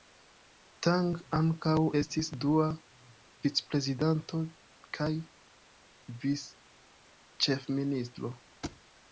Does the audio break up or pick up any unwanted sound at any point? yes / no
yes